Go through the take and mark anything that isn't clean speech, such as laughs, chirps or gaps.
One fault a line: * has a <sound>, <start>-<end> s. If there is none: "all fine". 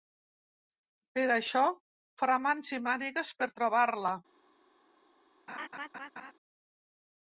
* has a laugh, 5.5-6.3 s